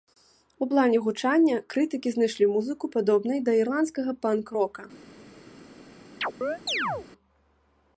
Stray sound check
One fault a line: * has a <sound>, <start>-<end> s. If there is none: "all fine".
* has a chirp, 6.2-7.1 s